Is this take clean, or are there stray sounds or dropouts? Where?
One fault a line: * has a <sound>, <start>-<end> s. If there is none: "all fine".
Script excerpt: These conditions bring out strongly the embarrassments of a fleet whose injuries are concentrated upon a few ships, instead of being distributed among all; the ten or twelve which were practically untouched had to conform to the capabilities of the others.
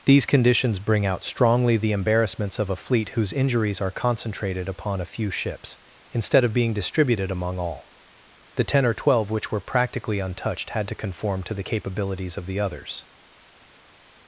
all fine